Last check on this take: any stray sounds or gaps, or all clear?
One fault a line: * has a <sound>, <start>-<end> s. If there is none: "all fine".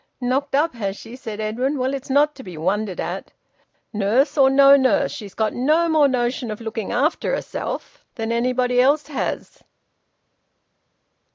all fine